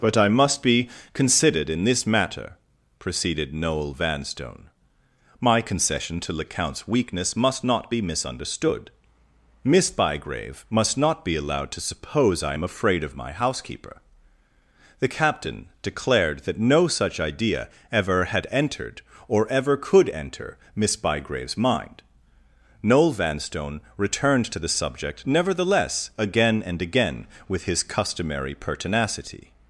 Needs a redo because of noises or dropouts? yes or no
no